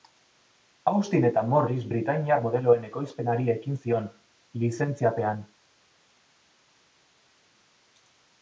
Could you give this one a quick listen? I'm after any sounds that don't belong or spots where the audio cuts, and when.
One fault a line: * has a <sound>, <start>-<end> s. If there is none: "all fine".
all fine